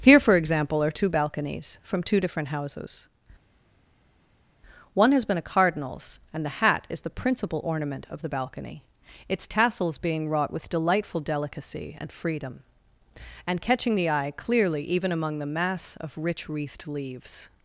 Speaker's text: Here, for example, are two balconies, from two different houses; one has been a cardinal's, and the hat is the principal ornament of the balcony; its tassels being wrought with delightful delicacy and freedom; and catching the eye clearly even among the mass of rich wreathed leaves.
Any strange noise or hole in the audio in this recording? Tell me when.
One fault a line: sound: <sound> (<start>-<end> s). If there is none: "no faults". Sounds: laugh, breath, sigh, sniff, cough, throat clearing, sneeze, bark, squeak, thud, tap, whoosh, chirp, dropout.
no faults